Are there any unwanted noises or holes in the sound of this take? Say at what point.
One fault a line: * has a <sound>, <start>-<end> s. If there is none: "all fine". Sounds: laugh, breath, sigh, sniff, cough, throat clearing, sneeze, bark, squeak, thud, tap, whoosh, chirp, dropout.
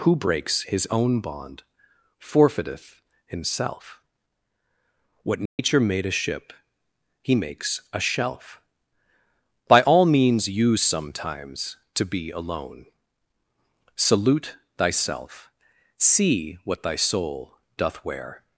* has a dropout, 5.5-5.6 s